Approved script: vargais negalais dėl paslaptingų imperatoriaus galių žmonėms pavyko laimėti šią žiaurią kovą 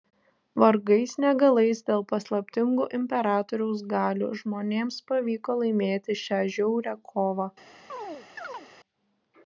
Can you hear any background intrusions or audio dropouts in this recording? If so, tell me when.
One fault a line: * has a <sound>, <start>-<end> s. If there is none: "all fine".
* has a chirp, 7.9-8.7 s